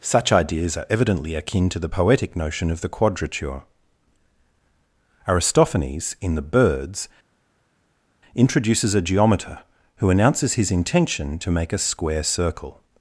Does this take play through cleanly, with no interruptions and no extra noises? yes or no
yes